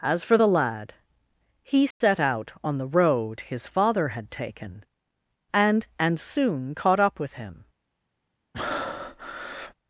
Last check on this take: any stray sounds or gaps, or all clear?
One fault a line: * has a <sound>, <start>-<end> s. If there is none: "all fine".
* has a dropout, 1.9-2.0 s
* has a breath, 8.5-9.7 s